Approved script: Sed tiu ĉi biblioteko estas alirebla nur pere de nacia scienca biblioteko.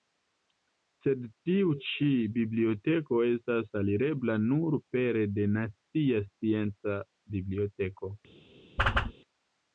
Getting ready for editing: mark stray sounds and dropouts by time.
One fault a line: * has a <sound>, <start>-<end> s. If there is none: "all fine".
* has a whoosh, 8.8-9.1 s